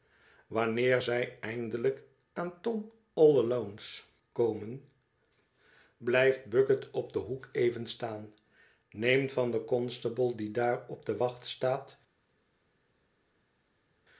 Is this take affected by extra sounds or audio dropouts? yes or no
no